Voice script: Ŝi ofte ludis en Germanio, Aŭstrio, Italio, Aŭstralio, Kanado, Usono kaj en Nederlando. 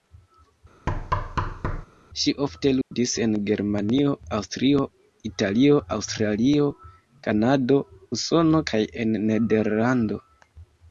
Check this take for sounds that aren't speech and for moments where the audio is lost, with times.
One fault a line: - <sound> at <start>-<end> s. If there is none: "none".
- thud at 0.9-1.9 s
- dropout at 2.8-2.9 s